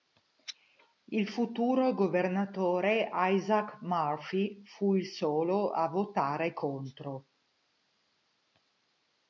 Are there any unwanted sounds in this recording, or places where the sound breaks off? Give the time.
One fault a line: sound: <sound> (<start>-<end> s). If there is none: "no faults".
no faults